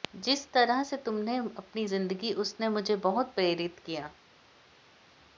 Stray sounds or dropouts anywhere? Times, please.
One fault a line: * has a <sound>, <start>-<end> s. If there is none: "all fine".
all fine